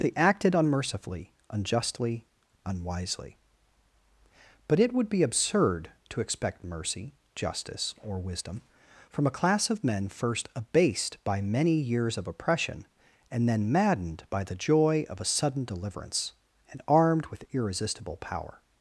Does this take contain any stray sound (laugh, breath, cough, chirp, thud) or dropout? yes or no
no